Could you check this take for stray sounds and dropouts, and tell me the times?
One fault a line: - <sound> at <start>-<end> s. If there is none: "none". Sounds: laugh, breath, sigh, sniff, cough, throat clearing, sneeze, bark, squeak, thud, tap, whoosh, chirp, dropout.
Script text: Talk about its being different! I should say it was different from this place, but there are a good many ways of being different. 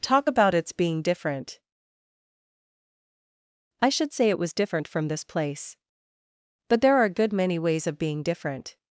none